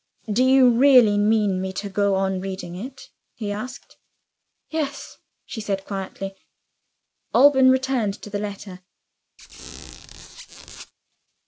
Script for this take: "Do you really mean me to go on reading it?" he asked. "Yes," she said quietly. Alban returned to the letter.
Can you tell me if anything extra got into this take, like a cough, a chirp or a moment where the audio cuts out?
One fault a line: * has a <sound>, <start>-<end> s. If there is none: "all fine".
* has a squeak, 9.4-10.9 s